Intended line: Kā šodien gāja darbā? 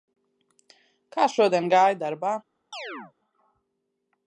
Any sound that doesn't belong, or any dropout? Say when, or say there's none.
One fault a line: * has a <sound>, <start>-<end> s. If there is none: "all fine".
* has a chirp, 2.7-3.1 s